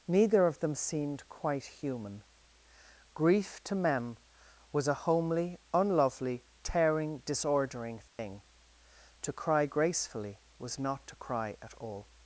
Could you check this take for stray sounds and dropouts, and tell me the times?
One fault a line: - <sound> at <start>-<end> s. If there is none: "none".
- dropout at 8.1-8.2 s